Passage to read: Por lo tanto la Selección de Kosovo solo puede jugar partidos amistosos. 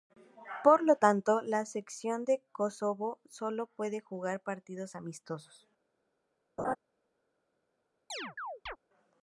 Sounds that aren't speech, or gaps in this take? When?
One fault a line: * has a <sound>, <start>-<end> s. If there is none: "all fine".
* has a laugh, 6.6-6.8 s
* has a chirp, 8.1-8.8 s